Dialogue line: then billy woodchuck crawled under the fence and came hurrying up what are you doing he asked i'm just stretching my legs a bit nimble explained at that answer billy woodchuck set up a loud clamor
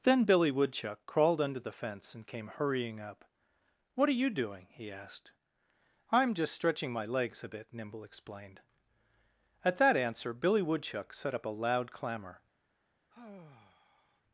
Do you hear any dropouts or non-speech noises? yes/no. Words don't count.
yes